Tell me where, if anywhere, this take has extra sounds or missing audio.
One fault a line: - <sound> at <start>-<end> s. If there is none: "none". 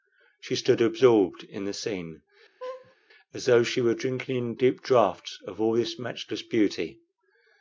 - laugh at 2.6-3.0 s